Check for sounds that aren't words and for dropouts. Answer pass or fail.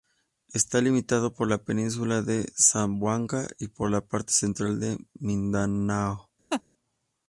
fail